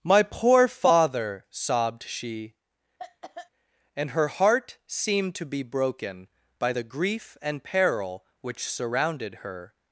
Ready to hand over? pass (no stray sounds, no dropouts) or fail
fail